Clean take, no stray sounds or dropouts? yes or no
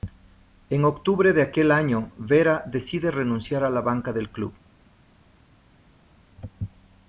yes